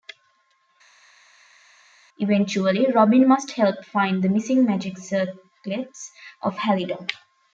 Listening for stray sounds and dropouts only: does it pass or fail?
pass